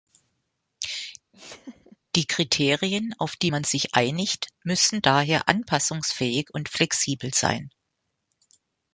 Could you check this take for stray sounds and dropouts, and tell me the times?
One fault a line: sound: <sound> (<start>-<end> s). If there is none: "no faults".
sound: laugh (1.3-2.0 s)